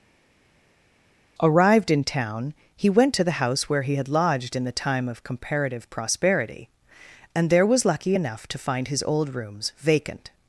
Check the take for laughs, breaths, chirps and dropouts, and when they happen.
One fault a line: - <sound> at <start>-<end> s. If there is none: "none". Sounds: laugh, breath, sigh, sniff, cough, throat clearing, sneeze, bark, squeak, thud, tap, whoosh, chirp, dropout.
none